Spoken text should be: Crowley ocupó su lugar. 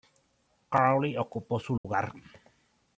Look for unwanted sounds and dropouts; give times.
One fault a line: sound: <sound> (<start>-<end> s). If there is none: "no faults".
sound: dropout (1.8-1.8 s)